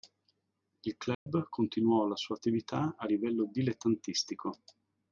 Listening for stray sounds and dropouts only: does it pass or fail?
fail